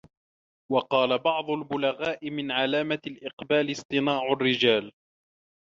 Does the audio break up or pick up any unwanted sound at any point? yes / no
no